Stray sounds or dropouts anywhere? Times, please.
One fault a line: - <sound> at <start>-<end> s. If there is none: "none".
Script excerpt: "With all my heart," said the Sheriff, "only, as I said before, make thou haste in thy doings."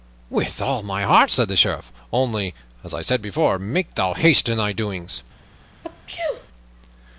- sneeze at 5.8-6.5 s